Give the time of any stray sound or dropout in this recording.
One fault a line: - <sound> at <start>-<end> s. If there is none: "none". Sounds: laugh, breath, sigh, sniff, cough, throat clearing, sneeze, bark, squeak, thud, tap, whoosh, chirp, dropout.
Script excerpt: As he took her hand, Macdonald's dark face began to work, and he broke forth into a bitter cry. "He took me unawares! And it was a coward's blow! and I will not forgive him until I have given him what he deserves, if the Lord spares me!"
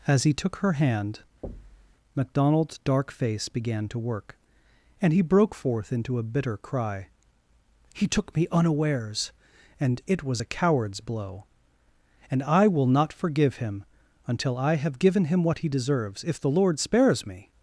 - thud at 1.4-2.0 s